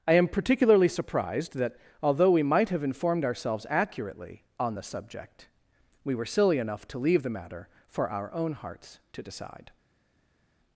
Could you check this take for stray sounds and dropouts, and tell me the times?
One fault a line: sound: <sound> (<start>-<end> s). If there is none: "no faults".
no faults